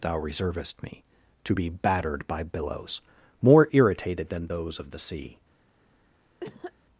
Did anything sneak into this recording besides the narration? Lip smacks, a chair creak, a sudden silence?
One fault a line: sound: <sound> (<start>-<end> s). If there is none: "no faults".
sound: cough (6.4-6.7 s)